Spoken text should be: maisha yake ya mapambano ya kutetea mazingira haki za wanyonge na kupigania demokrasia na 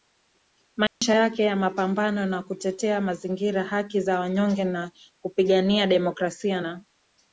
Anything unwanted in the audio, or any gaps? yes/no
yes